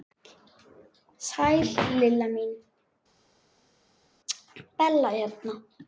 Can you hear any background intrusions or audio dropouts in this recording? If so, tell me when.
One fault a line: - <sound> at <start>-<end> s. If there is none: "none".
none